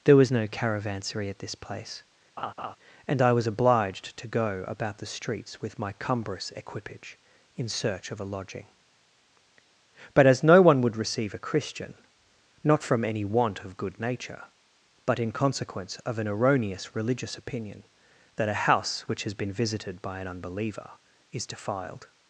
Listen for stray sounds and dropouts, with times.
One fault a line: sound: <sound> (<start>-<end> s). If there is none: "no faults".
sound: laugh (2.4-2.8 s)